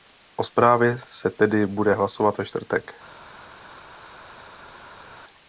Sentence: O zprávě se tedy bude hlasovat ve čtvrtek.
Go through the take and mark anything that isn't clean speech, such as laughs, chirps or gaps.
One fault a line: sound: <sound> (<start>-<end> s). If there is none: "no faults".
no faults